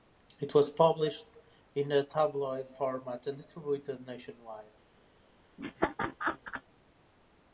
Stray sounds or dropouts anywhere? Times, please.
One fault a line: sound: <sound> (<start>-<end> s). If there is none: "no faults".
sound: laugh (5.6-6.6 s)